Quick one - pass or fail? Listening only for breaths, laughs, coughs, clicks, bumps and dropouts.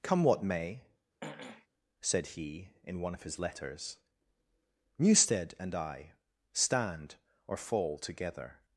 fail